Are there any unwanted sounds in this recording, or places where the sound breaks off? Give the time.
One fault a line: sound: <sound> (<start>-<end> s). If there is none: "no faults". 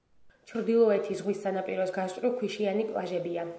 no faults